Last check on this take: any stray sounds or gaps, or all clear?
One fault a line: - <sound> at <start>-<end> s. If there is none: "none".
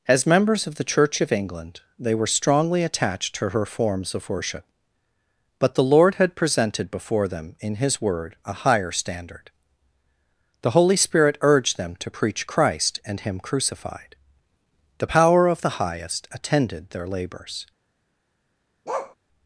- bark at 18.9-19.2 s